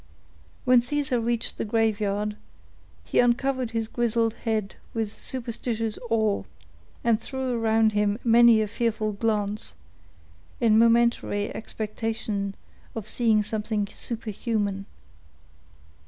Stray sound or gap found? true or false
false